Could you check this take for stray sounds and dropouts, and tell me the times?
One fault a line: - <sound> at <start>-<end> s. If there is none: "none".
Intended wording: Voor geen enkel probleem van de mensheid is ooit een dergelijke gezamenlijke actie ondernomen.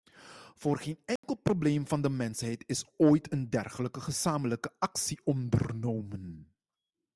- dropout at 1.2-1.2 s